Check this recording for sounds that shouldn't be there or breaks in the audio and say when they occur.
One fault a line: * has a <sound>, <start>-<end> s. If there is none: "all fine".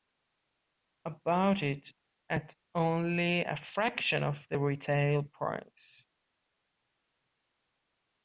all fine